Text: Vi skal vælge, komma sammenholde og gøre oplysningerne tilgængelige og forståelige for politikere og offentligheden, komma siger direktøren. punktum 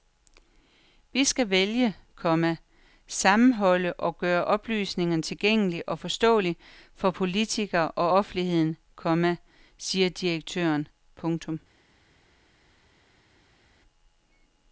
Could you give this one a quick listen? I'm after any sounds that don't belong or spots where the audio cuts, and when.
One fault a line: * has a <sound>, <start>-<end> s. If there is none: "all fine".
all fine